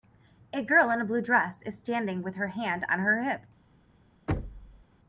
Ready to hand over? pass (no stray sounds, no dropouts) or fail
fail